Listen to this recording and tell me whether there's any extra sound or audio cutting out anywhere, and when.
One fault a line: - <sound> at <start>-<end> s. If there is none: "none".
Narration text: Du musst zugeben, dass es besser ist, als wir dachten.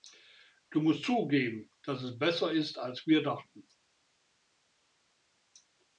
none